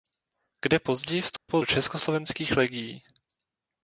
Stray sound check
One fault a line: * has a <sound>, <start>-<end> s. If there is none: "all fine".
* has a dropout, 1.4-1.5 s